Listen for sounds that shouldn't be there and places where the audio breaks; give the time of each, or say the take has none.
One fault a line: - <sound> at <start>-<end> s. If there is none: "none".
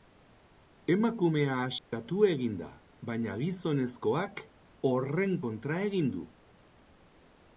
- dropout at 1.8-1.9 s